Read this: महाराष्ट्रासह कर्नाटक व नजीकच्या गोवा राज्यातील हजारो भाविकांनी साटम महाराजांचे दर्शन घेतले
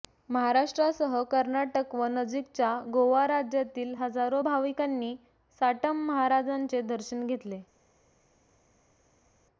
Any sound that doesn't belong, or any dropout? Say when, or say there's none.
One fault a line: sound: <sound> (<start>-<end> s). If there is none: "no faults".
no faults